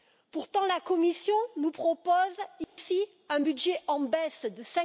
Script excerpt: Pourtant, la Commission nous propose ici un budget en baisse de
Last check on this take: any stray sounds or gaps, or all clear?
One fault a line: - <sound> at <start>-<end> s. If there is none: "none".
- dropout at 2.6-2.8 s